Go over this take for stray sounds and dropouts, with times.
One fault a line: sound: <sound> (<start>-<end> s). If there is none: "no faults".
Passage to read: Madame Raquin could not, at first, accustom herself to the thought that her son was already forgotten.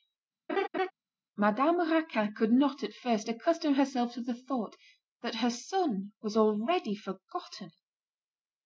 sound: laugh (0.5-0.9 s)